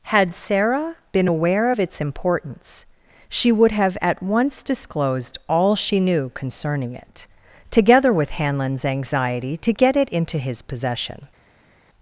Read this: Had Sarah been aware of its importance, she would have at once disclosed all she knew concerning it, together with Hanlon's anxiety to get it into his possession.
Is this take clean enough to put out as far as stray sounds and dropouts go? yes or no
yes